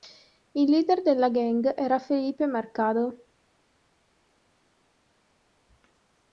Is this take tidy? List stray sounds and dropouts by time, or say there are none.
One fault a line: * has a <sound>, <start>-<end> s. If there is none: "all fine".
all fine